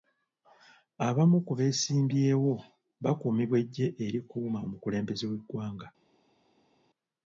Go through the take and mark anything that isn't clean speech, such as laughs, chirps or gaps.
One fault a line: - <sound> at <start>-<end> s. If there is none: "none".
none